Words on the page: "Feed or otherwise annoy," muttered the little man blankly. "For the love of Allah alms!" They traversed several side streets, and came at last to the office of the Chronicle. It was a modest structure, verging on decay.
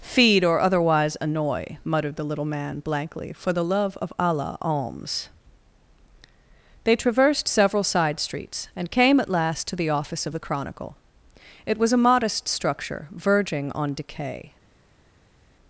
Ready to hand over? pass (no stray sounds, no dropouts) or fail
pass